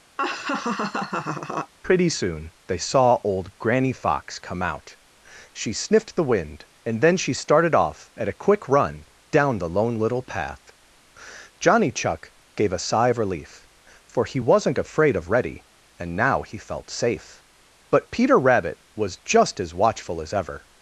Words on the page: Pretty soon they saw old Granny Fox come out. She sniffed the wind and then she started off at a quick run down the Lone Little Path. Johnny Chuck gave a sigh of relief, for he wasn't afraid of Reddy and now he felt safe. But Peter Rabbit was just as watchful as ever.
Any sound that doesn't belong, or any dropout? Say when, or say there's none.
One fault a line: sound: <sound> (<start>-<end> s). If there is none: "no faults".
sound: laugh (0.2-1.7 s)